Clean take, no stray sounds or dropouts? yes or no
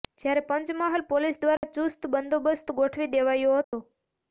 no